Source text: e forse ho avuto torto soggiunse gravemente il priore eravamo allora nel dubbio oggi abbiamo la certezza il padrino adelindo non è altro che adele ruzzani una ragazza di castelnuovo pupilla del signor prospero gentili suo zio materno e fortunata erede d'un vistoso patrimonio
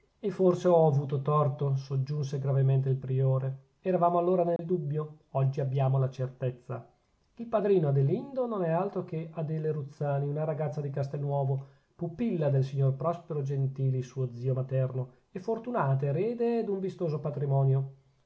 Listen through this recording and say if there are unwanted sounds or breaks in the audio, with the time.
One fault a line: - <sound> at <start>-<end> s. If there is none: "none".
- dropout at 4.6-4.6 s